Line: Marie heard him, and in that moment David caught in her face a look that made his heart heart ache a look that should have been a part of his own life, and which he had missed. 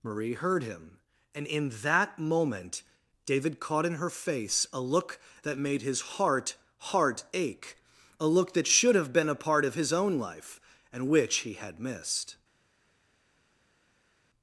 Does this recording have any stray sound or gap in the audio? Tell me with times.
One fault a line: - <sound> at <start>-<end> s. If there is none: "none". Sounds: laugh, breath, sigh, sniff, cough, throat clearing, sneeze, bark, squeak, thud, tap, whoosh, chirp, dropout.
none